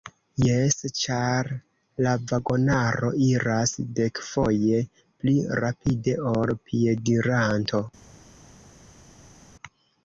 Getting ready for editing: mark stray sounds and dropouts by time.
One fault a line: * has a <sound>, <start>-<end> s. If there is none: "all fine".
all fine